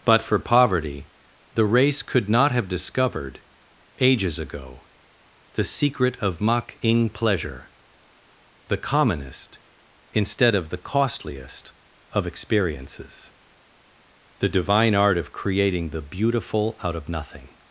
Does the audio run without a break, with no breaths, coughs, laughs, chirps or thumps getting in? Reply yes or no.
yes